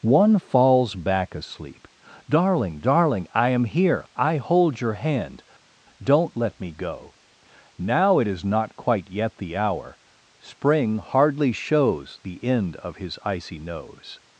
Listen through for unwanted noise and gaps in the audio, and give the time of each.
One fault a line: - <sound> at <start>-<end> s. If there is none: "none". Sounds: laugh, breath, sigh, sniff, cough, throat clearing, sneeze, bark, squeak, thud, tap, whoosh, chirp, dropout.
none